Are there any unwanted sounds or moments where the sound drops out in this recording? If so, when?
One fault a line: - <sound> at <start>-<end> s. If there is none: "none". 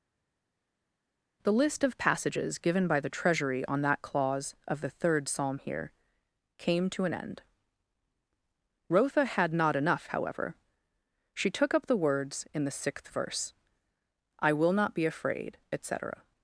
none